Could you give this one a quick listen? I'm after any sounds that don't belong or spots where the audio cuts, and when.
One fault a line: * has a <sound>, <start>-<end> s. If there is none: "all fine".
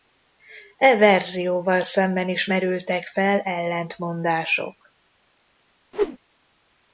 * has a whoosh, 5.9-6.2 s